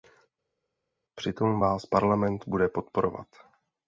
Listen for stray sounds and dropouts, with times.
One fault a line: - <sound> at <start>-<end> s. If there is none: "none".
none